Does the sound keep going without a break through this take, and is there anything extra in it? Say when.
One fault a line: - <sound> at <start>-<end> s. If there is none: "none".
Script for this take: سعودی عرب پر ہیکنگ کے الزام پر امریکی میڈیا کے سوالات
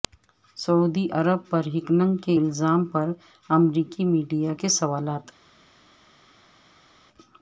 none